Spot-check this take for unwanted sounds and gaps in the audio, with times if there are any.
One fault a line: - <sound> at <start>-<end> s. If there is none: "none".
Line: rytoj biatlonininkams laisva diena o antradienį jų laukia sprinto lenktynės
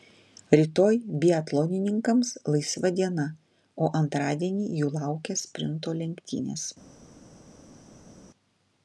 none